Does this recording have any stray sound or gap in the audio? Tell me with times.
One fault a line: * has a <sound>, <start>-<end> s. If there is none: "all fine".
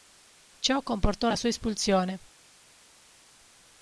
all fine